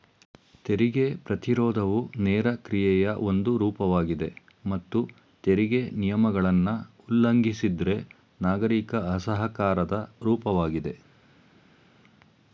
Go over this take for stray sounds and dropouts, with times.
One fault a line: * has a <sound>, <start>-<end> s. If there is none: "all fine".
all fine